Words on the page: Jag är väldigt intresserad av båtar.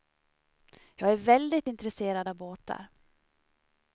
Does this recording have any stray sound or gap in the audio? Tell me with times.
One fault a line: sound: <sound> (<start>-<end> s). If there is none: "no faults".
no faults